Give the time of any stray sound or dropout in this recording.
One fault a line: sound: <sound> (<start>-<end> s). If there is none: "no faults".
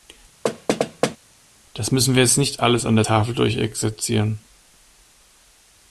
sound: thud (0.4-1.2 s)